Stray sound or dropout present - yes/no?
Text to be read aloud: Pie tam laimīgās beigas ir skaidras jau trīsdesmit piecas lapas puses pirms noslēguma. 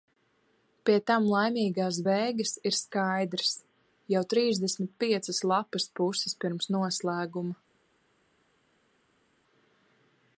no